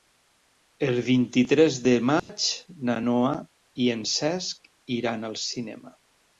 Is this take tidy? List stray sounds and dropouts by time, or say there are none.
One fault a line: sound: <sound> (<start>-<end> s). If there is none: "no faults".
sound: dropout (2.2-2.3 s)